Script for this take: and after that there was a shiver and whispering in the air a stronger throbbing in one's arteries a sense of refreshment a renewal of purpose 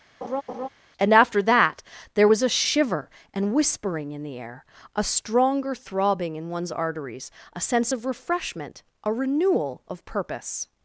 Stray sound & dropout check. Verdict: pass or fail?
fail